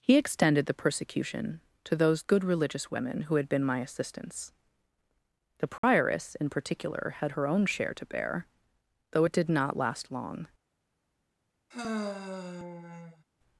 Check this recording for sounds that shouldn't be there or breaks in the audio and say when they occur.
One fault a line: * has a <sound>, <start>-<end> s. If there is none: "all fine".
* has a dropout, 5.8-5.8 s
* has a sigh, 11.7-13.2 s